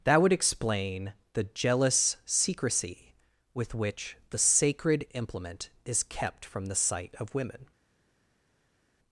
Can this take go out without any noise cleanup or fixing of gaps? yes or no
yes